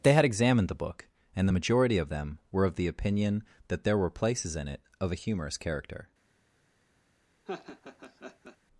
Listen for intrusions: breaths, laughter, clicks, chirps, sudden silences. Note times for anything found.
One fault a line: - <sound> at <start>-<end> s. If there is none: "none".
- laugh at 7.4-8.6 s